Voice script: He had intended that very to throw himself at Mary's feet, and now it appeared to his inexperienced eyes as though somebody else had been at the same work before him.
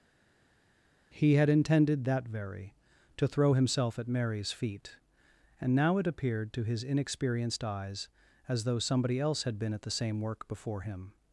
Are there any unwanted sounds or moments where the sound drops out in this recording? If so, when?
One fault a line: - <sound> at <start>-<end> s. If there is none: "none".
none